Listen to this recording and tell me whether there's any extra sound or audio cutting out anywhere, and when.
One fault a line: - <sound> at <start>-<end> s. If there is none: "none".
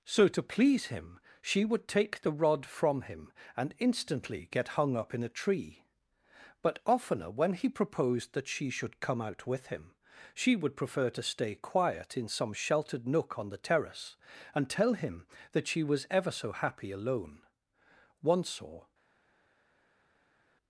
none